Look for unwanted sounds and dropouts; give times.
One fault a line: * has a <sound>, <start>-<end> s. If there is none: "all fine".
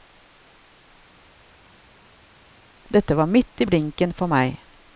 all fine